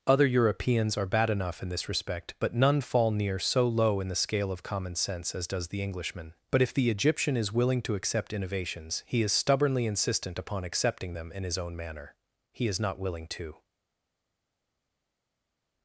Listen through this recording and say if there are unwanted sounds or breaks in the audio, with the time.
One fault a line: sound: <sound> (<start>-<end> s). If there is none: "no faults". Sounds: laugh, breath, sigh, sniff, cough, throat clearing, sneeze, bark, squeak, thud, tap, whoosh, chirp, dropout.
no faults